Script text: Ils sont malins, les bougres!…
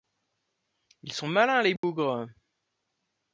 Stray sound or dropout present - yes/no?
yes